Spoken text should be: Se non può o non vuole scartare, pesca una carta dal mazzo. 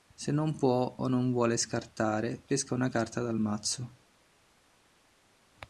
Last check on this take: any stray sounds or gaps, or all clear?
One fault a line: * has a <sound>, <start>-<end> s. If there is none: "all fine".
all fine